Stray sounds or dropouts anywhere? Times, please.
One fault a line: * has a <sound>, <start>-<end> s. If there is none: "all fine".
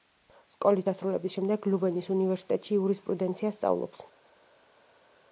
all fine